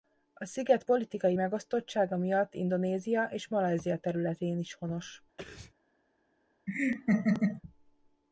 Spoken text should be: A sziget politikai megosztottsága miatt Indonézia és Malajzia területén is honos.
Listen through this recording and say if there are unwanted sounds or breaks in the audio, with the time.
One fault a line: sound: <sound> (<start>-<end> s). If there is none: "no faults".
sound: sneeze (5.4-5.7 s)
sound: laugh (6.7-7.6 s)